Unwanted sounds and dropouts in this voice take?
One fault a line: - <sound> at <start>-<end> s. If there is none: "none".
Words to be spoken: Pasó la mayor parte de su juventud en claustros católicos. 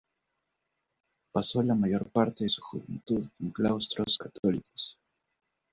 none